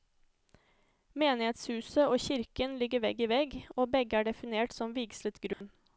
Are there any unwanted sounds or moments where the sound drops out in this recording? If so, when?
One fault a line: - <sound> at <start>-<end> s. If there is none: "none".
- dropout at 5.5-5.6 s